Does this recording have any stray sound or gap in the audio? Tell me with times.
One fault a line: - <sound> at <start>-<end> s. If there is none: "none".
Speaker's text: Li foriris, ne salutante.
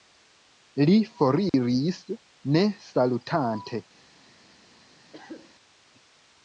- dropout at 1.5-1.5 s
- cough at 5.1-5.5 s